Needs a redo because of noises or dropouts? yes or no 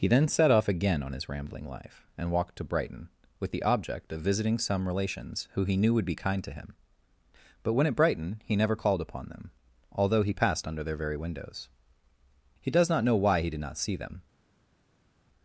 no